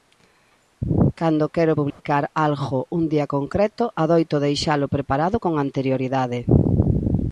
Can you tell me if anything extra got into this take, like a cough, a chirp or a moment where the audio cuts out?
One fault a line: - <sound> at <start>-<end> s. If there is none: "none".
- dropout at 1.9-2.0 s